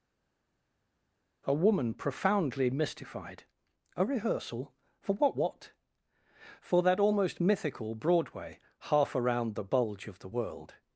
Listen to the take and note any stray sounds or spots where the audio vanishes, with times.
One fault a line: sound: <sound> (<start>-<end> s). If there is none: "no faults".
no faults